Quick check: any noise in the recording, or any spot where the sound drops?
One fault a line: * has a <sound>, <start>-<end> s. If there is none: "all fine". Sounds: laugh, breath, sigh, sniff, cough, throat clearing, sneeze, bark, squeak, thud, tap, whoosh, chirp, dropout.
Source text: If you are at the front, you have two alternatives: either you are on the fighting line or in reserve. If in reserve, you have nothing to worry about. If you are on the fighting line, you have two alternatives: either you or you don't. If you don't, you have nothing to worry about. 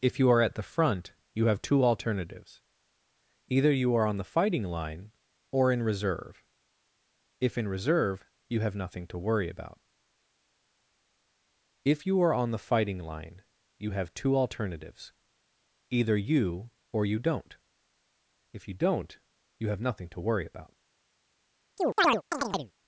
* has a chirp, 21.8-22.7 s